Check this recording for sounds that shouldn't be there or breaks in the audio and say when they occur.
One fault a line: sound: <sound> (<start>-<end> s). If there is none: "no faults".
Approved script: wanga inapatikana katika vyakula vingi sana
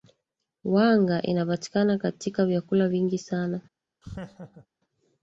sound: laugh (4.0-4.7 s)